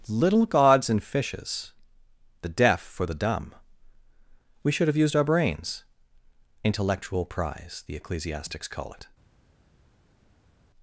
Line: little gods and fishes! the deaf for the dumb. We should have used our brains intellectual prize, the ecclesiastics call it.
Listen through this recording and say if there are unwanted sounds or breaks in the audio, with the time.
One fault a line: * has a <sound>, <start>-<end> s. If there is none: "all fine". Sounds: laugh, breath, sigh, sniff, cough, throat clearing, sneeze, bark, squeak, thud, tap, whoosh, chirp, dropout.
all fine